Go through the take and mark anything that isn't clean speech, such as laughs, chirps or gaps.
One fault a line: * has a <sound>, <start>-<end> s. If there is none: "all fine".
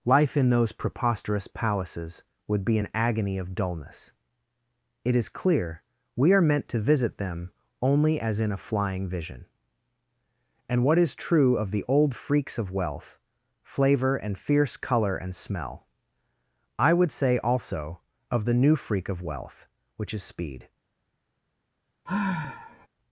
* has a sigh, 22.1-22.9 s